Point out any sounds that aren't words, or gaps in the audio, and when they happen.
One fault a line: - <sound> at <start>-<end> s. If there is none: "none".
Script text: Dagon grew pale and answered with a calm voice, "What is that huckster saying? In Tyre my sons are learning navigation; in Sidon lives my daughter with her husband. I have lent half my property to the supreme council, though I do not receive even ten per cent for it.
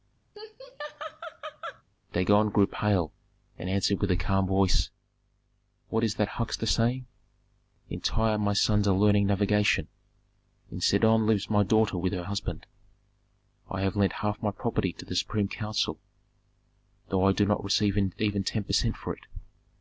- laugh at 0.3-1.8 s